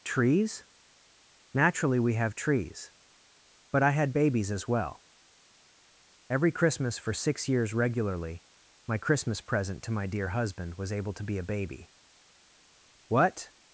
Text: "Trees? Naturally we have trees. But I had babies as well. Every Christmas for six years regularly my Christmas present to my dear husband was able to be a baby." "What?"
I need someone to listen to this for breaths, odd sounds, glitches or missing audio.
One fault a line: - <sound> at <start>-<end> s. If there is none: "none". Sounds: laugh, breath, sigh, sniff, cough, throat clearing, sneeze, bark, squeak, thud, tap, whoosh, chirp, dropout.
none